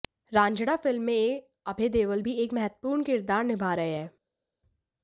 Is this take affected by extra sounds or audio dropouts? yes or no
no